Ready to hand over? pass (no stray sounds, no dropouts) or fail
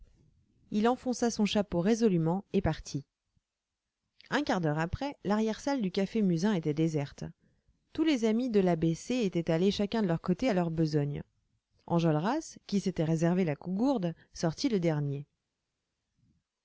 pass